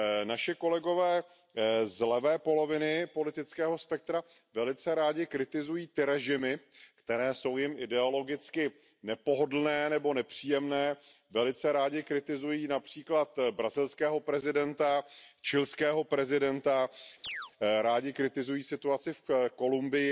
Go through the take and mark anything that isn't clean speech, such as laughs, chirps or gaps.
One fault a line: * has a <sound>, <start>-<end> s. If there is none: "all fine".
* has a chirp, 17.2-17.5 s